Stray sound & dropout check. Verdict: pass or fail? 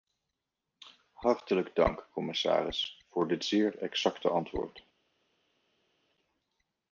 pass